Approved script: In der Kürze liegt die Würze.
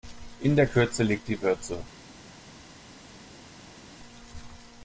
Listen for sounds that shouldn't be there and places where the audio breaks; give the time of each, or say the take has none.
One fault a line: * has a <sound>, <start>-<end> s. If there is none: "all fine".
all fine